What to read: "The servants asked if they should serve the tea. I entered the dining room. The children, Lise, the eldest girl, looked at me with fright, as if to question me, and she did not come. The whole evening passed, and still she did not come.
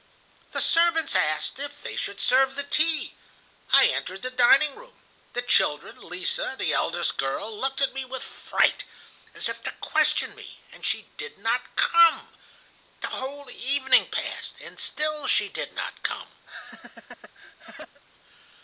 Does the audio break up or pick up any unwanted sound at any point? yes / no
yes